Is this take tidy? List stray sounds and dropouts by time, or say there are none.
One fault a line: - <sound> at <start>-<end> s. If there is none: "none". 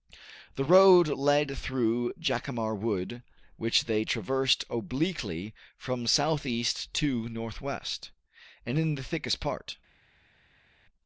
none